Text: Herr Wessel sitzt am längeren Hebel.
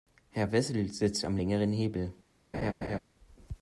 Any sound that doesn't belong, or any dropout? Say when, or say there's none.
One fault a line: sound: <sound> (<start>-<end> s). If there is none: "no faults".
sound: laugh (2.5-3.0 s)